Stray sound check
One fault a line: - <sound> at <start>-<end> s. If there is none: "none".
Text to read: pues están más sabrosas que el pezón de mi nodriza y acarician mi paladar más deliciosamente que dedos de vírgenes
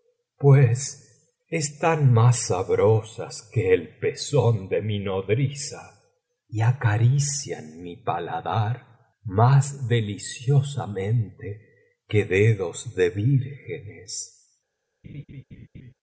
- laugh at 15.0-15.9 s